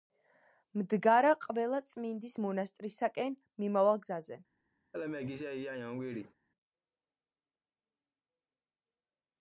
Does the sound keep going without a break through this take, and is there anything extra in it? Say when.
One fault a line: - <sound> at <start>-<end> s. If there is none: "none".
- laugh at 4.9-6.3 s